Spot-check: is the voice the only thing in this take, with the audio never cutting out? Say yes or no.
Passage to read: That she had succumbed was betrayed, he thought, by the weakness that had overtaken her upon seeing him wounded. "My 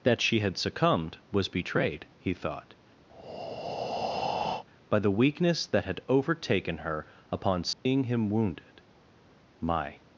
no